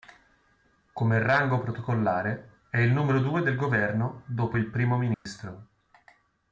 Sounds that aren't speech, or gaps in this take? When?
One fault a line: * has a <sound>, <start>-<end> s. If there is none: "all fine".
* has a dropout, 5.1-5.3 s